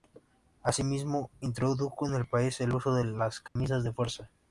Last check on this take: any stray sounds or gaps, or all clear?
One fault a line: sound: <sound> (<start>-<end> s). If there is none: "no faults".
sound: dropout (3.5-3.6 s)